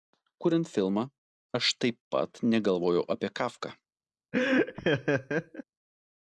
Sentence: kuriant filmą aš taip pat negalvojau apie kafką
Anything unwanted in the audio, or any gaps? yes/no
yes